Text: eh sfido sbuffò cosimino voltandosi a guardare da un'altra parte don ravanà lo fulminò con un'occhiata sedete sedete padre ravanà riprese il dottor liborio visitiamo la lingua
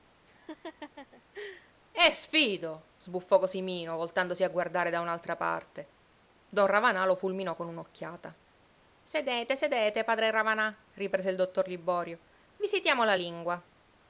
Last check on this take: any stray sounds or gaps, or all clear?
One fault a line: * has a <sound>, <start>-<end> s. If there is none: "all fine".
* has a laugh, 0.3-1.7 s